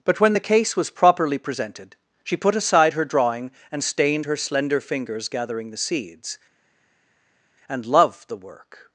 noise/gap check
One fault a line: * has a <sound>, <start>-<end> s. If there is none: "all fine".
all fine